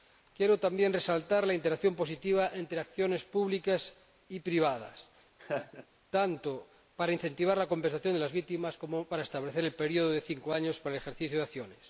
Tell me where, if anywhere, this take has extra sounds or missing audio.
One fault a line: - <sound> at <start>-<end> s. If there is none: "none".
- laugh at 5.4-5.9 s